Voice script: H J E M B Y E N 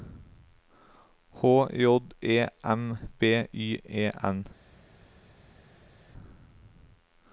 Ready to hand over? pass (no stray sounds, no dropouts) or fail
pass